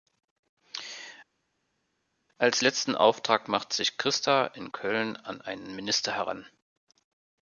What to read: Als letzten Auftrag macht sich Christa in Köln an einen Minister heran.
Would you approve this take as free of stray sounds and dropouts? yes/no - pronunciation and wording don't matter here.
yes